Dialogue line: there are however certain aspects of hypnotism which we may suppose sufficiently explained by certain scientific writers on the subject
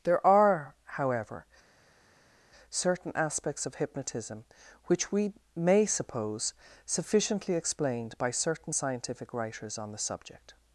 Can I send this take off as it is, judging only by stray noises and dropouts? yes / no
yes